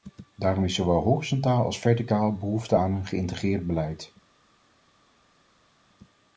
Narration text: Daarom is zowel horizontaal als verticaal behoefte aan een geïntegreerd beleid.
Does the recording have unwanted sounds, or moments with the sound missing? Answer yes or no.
no